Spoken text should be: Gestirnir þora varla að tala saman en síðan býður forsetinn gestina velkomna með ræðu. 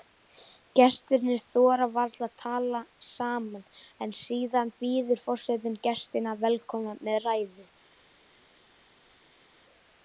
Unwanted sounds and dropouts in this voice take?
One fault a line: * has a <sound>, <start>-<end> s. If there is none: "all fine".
all fine